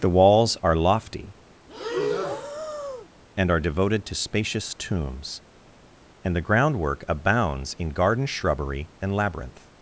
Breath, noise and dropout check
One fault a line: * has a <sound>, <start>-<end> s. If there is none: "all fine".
* has a breath, 1.7-3.1 s